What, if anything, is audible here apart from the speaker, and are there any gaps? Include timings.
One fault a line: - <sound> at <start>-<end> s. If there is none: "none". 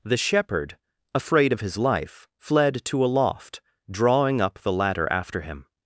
none